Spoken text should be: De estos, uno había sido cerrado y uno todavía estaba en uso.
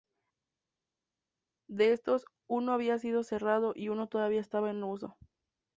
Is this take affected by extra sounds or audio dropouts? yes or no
no